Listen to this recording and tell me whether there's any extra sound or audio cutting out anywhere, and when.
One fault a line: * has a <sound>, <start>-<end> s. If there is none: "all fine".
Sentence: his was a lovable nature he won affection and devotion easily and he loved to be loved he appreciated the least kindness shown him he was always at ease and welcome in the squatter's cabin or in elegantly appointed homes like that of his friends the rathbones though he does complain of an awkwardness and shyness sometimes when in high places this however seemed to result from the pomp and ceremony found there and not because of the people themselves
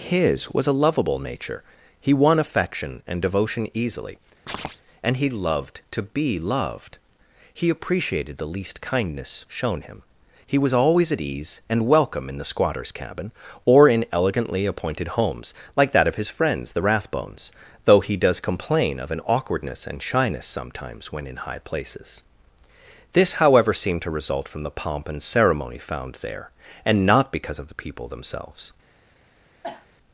* has a chirp, 4.5-4.8 s
* has a cough, 29.6-29.9 s